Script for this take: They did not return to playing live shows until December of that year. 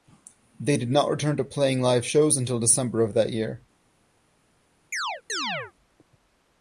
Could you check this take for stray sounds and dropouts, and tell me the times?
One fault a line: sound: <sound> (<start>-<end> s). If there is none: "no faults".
sound: chirp (4.9-5.7 s)